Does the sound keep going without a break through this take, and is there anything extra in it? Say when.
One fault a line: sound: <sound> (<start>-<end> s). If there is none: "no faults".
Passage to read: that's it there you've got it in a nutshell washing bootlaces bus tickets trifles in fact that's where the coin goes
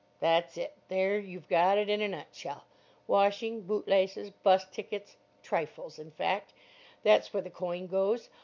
no faults